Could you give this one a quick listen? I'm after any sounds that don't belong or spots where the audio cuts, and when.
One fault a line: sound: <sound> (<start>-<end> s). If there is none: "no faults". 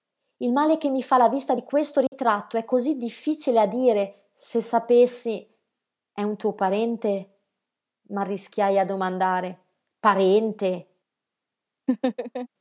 sound: dropout (2.1-2.1 s)
sound: laugh (11.9-12.5 s)